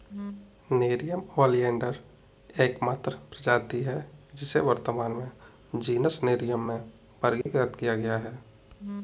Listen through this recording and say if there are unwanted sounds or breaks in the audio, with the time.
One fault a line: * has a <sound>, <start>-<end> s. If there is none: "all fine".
* has a dropout, 7.4-7.5 s